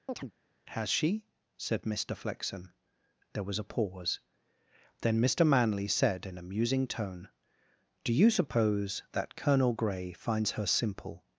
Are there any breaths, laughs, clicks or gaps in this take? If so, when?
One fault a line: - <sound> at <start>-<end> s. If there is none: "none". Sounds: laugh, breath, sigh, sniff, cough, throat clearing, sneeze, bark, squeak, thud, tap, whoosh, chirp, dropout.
- chirp at 0.1-0.3 s